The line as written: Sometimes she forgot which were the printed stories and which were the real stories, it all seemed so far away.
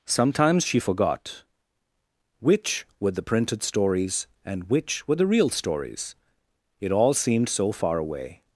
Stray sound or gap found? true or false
false